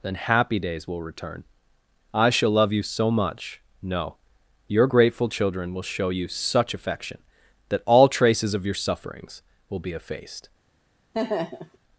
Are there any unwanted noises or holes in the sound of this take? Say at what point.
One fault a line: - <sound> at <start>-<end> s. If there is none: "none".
- laugh at 11.1-11.8 s